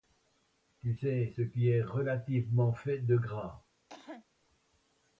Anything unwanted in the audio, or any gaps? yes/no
yes